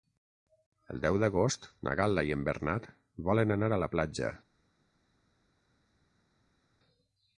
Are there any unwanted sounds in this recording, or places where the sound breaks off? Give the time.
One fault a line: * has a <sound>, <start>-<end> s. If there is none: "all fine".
all fine